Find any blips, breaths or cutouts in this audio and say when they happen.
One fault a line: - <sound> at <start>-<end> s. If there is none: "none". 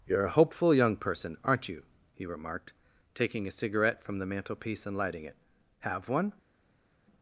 none